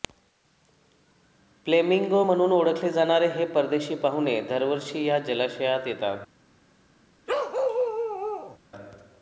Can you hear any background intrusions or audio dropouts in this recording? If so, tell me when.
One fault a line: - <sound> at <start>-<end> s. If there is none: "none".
- bark at 7.3-8.6 s